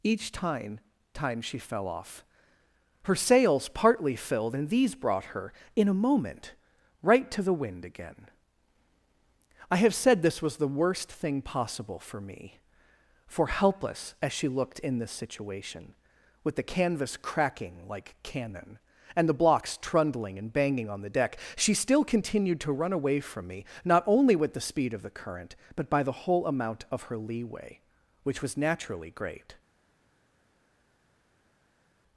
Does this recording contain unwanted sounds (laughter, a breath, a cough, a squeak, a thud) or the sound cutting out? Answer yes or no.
no